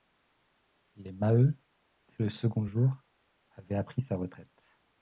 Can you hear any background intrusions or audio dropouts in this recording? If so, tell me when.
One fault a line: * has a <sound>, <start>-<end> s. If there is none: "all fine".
all fine